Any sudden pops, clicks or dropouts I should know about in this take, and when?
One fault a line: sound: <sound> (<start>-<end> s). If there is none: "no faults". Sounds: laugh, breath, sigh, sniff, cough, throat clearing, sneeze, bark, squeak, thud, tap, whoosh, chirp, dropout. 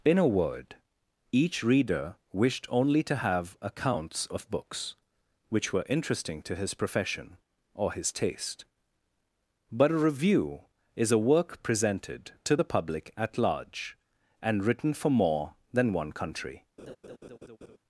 sound: laugh (16.8-17.8 s)